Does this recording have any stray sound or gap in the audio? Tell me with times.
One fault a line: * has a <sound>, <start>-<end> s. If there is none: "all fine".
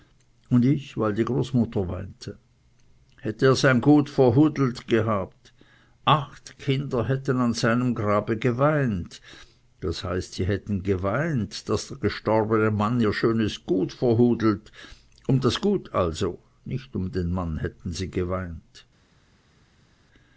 all fine